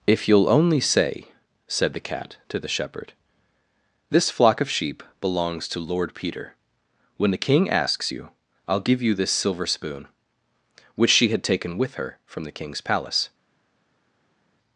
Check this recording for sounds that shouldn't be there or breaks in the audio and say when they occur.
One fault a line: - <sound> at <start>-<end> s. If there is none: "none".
none